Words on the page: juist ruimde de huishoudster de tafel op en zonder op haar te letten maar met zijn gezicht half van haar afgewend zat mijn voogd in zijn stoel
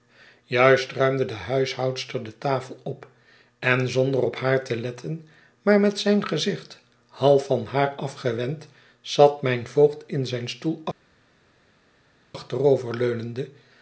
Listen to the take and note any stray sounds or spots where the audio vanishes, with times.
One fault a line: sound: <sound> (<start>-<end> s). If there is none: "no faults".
no faults